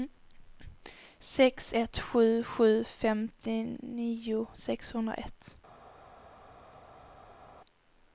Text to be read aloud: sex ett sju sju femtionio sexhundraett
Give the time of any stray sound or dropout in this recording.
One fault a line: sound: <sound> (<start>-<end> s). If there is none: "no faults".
no faults